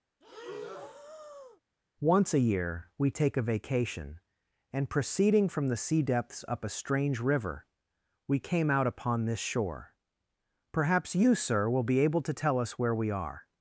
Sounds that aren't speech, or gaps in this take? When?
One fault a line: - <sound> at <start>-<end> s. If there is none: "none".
- breath at 0.2-1.6 s